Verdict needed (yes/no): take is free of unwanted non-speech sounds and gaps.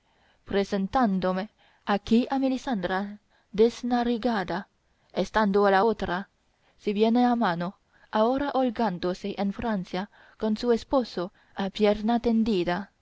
yes